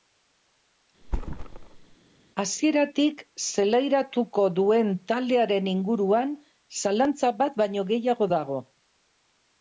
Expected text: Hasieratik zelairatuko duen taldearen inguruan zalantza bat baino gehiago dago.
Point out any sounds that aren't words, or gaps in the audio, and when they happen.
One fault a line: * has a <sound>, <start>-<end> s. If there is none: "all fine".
* has a thud, 1.0-2.0 s